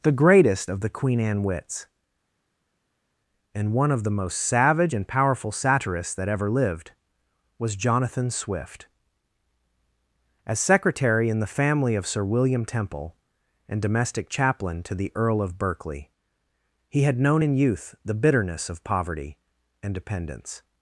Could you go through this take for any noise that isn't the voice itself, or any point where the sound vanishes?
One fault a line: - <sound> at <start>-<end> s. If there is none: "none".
none